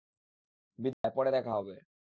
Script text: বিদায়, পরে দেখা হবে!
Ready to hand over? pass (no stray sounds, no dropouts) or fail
fail